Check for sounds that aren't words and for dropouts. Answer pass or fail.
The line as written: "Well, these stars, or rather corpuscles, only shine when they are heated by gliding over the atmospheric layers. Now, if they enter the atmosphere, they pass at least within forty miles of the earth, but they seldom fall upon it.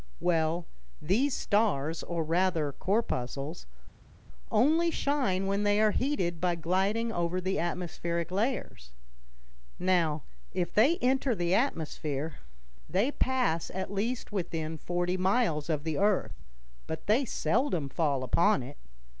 pass